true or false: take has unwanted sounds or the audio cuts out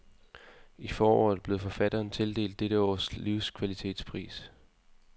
false